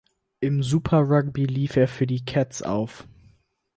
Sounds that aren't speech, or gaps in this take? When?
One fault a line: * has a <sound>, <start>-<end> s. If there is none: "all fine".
all fine